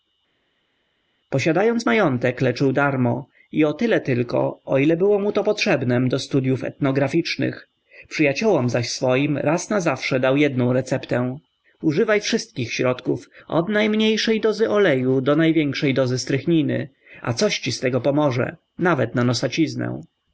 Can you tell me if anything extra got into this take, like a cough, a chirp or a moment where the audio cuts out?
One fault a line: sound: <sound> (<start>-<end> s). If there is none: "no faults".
no faults